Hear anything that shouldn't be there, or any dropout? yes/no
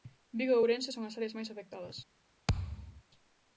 yes